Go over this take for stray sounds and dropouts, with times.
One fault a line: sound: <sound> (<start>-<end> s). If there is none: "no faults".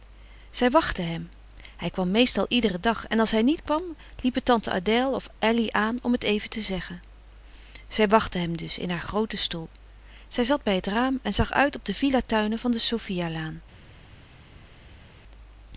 no faults